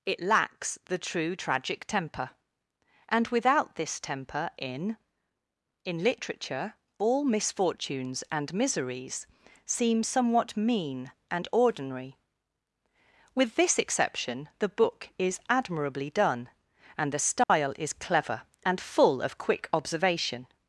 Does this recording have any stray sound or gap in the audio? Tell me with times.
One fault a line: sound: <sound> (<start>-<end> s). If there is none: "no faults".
sound: dropout (17.4-17.5 s)